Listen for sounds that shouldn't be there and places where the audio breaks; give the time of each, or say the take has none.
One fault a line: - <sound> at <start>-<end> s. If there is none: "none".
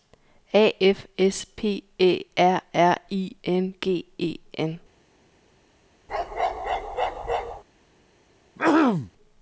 - bark at 6.1-7.6 s
- throat clearing at 8.6-9.1 s